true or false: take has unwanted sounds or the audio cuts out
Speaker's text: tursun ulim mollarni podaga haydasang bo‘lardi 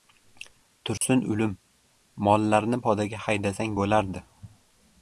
true